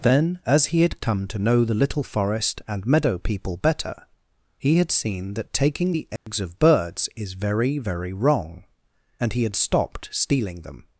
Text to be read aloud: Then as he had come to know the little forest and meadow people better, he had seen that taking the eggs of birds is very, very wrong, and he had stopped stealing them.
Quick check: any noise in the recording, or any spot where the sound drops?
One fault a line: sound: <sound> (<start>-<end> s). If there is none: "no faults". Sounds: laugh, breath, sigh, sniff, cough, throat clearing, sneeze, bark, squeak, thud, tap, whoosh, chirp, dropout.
sound: dropout (6.2-6.3 s)